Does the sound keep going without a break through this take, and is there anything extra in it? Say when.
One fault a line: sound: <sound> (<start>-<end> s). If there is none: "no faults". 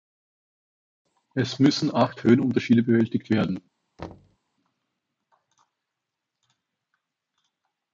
sound: thud (4.0-4.4 s)